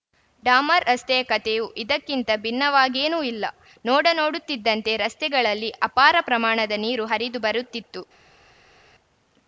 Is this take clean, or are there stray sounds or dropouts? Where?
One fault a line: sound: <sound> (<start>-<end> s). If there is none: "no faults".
no faults